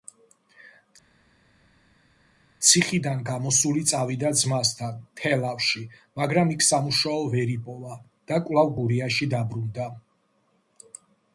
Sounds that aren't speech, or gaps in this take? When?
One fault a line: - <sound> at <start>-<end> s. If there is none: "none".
none